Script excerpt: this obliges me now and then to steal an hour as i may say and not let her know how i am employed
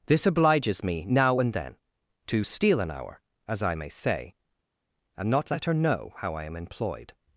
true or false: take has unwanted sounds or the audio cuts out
false